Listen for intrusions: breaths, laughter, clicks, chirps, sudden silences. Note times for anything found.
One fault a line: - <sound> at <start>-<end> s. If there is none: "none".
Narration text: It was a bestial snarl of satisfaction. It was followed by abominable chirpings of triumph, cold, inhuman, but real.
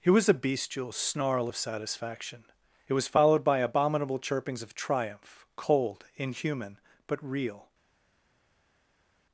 none